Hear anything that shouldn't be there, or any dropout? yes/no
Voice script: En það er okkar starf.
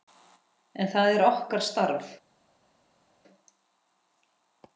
no